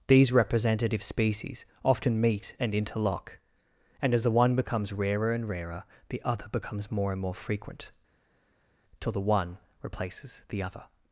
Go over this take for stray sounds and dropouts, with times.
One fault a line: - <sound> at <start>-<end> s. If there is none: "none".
none